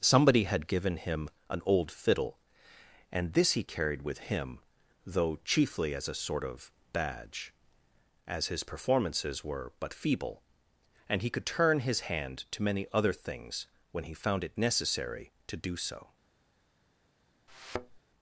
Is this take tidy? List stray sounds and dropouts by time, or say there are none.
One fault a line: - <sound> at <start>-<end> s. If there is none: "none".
- thud at 17.5-18.0 s